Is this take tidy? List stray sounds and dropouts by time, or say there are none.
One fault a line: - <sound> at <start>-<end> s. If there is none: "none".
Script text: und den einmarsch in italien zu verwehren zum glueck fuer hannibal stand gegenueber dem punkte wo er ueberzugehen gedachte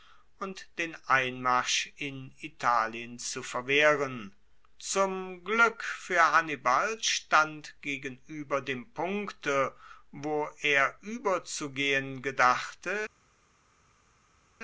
none